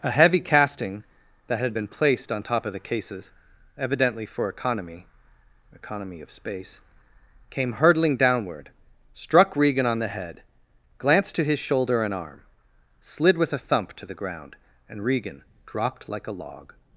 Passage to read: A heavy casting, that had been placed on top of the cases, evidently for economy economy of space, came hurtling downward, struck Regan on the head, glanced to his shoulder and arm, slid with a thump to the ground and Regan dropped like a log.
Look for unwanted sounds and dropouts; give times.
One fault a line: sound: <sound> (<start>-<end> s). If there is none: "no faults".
no faults